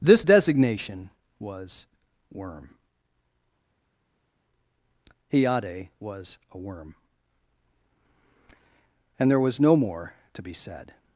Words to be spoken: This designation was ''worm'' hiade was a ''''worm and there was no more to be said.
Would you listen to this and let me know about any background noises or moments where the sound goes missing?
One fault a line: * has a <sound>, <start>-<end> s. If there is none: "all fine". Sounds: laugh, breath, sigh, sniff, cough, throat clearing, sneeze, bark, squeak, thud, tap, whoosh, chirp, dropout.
all fine